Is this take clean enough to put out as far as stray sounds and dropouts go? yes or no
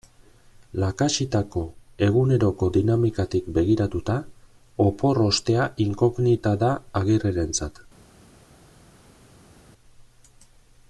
yes